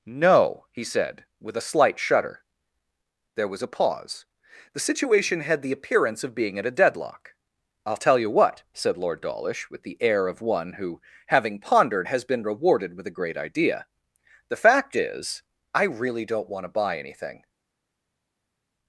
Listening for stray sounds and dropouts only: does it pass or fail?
pass